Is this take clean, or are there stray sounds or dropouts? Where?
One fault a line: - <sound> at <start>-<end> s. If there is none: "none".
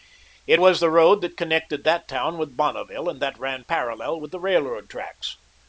none